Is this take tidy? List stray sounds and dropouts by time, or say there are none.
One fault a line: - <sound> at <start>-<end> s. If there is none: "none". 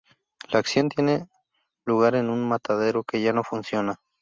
none